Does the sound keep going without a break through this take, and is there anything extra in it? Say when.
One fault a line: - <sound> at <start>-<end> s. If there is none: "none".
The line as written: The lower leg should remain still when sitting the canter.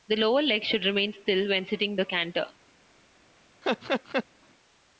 - laugh at 3.6-4.2 s